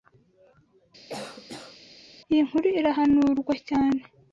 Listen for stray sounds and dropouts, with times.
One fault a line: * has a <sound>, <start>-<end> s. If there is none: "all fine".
* has a cough, 1.1-1.8 s